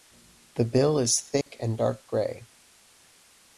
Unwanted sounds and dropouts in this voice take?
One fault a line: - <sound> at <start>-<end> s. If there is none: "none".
- dropout at 1.4-1.5 s